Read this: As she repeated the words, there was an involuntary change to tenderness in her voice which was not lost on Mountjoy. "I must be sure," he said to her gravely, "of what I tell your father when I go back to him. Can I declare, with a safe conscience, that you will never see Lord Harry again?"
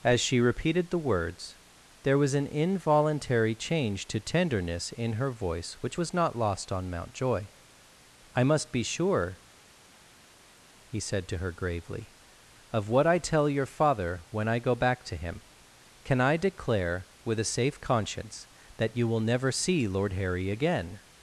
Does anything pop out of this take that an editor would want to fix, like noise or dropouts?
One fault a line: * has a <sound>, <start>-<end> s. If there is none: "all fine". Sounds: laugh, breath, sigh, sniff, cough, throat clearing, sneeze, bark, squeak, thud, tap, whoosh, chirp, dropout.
all fine